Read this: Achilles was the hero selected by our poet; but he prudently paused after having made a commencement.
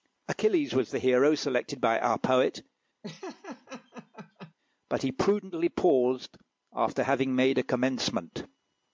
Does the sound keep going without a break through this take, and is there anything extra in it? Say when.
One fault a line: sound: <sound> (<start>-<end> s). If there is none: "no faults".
sound: laugh (3.0-4.5 s)